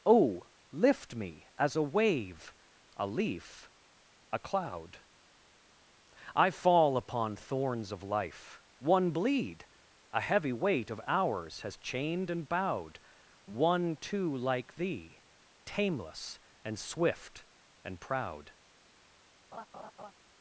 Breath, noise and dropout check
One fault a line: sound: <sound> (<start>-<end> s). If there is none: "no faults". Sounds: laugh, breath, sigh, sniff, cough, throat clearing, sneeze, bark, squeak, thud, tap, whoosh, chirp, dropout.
sound: laugh (19.5-20.1 s)